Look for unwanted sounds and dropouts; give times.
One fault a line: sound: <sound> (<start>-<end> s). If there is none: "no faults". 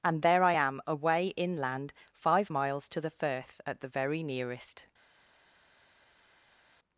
no faults